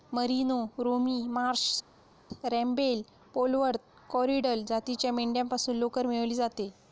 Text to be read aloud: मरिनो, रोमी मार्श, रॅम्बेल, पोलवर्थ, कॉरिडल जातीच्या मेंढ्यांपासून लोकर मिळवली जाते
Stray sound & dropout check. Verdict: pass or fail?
pass